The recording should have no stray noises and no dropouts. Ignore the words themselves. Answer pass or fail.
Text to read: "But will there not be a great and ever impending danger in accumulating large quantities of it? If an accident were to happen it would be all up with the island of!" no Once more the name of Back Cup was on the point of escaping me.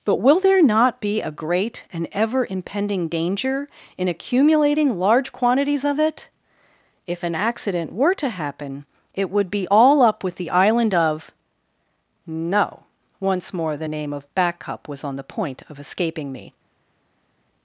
pass